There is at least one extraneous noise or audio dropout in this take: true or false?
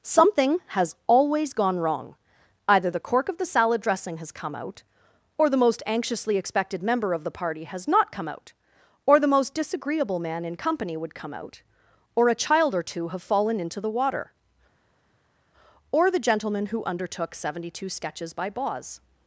false